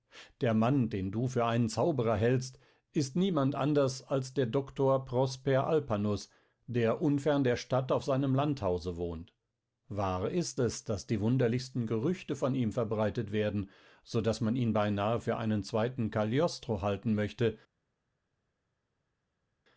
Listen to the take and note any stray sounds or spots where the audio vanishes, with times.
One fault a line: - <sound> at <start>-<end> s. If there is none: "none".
none